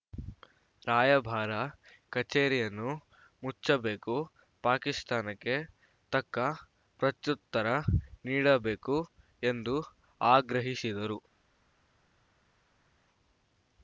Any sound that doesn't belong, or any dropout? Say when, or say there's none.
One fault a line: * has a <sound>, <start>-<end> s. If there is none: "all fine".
all fine